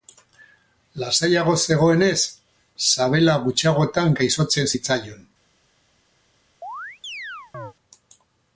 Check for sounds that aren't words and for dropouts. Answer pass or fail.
fail